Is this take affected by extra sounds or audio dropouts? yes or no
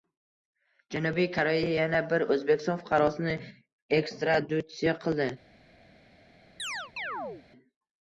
yes